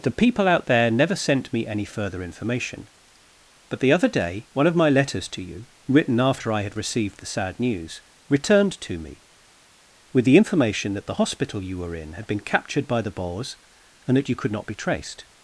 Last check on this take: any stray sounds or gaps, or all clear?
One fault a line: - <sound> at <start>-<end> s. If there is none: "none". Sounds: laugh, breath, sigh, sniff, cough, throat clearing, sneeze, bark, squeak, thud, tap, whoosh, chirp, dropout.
none